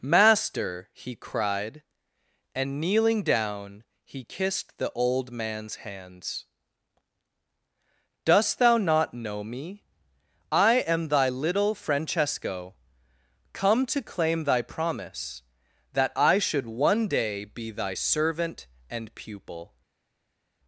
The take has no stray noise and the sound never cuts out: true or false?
true